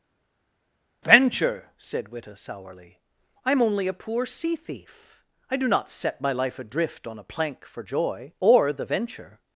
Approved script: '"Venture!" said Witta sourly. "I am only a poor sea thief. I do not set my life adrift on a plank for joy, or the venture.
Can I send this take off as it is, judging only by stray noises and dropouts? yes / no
yes